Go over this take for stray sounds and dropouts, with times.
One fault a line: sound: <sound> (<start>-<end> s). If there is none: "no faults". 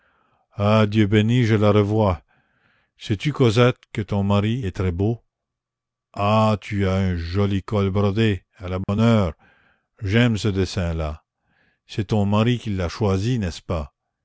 sound: dropout (8.8-8.9 s)